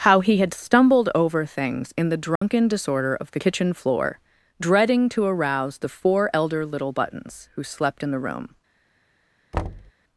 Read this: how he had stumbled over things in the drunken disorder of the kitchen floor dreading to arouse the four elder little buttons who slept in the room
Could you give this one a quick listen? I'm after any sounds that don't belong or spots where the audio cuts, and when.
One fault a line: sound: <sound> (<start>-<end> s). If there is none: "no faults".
sound: dropout (2.4-2.4 s)
sound: thud (9.5-9.9 s)